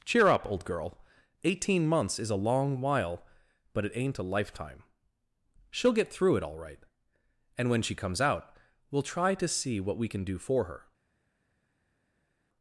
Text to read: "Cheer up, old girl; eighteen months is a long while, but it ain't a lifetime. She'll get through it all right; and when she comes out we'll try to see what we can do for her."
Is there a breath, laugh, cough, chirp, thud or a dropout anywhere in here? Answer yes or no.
no